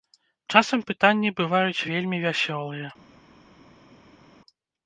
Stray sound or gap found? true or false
false